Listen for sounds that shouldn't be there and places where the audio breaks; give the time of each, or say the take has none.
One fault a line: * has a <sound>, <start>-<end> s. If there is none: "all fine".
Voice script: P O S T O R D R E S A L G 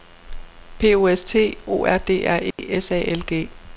* has a dropout, 2.5-2.6 s